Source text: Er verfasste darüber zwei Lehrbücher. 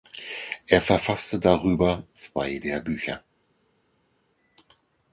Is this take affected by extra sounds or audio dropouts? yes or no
no